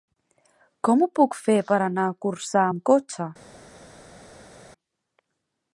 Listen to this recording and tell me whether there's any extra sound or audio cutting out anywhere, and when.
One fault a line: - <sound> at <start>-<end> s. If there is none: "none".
none